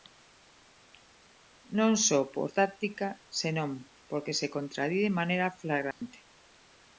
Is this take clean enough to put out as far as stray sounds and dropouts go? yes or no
no